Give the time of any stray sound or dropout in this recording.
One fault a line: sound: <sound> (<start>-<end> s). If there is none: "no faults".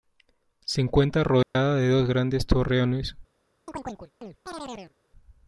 sound: dropout (1.4-1.6 s)
sound: chirp (3.7-4.9 s)